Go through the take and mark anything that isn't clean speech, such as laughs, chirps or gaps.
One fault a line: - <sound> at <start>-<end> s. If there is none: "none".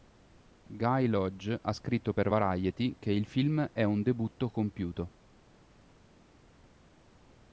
none